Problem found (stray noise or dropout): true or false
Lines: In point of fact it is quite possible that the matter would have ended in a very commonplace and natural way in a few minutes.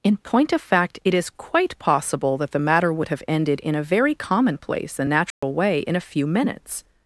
true